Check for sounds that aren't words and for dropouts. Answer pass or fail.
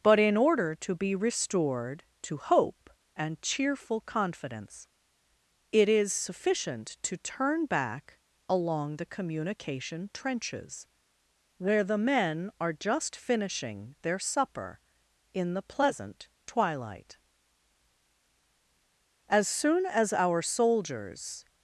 pass